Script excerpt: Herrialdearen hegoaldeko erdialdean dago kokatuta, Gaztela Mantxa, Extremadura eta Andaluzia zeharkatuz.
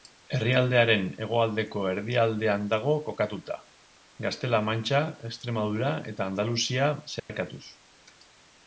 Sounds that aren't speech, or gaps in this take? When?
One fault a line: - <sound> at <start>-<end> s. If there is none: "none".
- dropout at 7.2-7.3 s